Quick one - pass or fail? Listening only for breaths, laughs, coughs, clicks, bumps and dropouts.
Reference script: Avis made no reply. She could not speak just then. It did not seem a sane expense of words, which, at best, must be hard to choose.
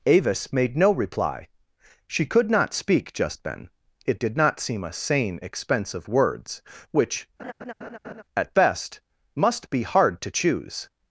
fail